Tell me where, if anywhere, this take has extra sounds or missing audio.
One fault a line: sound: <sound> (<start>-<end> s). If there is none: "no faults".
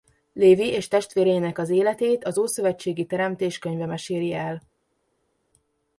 no faults